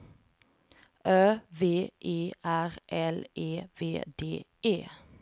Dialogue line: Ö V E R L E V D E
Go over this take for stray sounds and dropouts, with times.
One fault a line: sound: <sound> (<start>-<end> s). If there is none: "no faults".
no faults